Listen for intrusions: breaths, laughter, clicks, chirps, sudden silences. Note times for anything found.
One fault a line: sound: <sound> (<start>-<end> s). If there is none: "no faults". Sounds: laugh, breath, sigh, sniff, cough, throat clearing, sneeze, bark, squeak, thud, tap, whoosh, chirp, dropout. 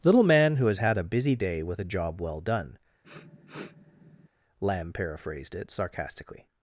sound: sniff (3.0-4.3 s)